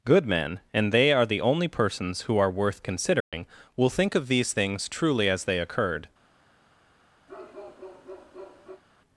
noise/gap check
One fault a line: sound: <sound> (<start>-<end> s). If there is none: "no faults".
sound: dropout (3.2-3.3 s)
sound: bark (7.3-8.8 s)